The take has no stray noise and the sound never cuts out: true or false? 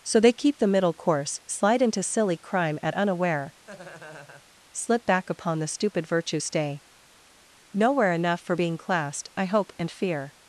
false